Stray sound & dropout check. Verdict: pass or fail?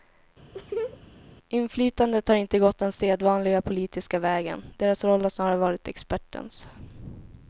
fail